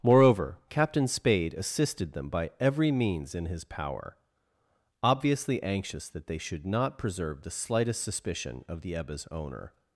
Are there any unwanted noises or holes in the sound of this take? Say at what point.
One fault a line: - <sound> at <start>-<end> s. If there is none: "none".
none